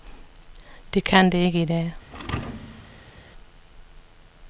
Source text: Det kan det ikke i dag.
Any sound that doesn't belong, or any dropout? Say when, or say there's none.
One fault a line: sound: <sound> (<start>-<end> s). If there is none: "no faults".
sound: thud (2.1-3.2 s)